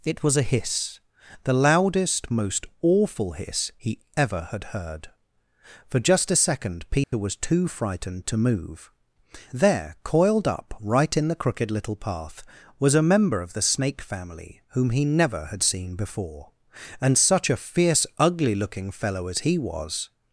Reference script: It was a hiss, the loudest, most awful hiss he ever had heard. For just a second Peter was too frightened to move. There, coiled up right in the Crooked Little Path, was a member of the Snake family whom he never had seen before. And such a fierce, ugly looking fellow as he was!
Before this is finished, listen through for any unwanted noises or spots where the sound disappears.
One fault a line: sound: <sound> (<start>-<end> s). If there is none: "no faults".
sound: dropout (7.0-7.1 s)